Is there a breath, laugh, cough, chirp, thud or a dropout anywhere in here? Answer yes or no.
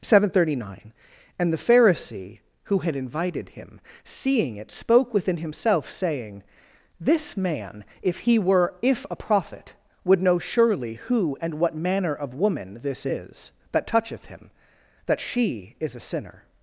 no